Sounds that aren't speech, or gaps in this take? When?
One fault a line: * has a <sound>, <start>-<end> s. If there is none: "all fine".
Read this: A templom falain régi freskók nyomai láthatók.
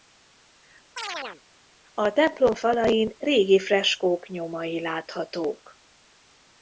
* has a chirp, 1.0-1.4 s